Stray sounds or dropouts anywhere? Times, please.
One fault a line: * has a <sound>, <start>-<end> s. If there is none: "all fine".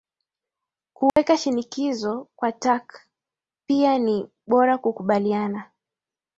* has a dropout, 1.1-1.2 s